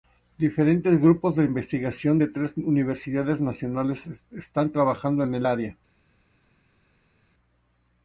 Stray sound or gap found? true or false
false